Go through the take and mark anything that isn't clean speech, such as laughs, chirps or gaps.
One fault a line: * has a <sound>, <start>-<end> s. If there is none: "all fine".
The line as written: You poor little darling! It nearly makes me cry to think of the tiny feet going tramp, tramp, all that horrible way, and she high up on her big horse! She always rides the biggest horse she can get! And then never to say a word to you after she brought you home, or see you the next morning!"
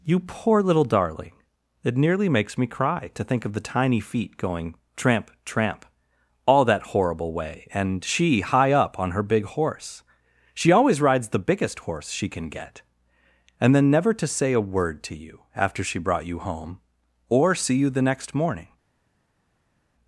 all fine